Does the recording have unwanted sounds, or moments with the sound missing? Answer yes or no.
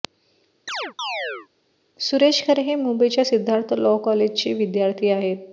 yes